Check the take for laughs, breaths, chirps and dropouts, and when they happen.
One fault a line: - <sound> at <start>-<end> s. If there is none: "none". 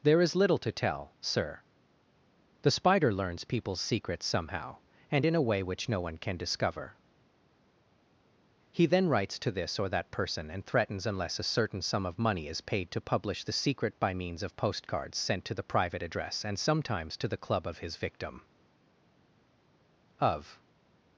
none